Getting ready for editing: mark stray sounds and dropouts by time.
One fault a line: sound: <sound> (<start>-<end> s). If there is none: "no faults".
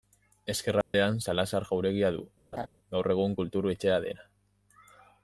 sound: dropout (0.8-0.9 s)
sound: laugh (2.5-2.7 s)